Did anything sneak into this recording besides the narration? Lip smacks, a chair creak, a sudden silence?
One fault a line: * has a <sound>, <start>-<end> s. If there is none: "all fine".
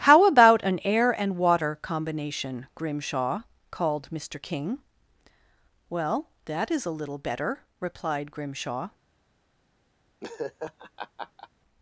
* has a laugh, 10.2-11.5 s